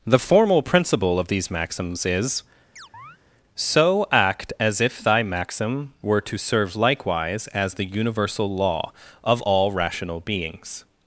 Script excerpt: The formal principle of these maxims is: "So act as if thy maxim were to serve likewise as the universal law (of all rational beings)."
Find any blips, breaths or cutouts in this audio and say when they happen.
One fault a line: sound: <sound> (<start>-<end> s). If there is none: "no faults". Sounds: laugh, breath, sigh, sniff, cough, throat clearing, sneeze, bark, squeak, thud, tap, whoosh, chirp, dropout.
sound: chirp (2.8-3.2 s)